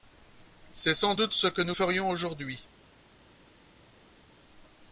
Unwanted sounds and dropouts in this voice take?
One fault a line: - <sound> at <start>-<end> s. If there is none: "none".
none